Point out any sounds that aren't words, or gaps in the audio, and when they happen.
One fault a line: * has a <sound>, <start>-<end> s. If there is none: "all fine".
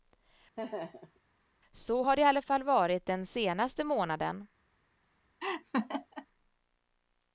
* has a laugh, 0.6-1.2 s
* has a laugh, 5.4-6.3 s